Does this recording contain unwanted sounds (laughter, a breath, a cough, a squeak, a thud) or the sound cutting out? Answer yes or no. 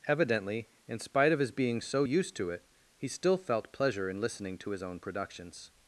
no